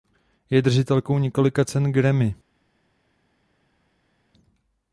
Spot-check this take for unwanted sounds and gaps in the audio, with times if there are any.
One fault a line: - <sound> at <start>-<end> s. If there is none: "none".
none